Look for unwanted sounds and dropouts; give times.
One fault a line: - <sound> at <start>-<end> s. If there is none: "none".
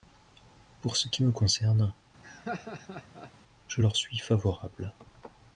- laugh at 2.2-3.3 s